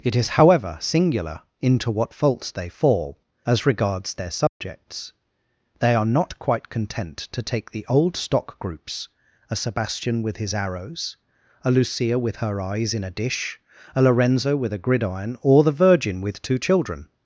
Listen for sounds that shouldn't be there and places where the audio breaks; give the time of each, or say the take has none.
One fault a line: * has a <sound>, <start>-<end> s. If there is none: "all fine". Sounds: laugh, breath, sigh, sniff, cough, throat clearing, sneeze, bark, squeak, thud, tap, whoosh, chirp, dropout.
* has a dropout, 4.5-4.6 s